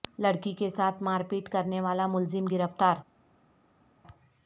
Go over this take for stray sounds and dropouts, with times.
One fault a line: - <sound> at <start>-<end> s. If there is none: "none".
none